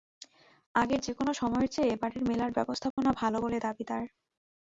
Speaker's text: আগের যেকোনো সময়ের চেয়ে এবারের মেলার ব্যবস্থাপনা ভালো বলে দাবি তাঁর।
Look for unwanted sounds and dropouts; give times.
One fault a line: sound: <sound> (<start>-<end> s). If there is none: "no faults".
sound: dropout (2.9-3.0 s)